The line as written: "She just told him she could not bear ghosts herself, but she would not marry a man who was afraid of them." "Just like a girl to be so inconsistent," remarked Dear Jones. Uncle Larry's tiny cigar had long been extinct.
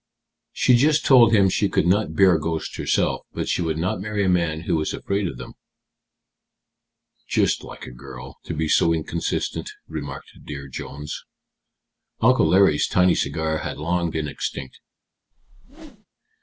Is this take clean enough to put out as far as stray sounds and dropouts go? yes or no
no